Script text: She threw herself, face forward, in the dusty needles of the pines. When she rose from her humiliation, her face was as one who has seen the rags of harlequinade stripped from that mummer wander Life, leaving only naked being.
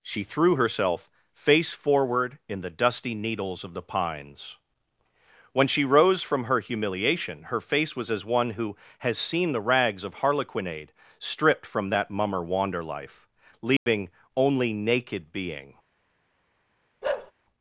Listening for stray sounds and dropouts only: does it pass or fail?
fail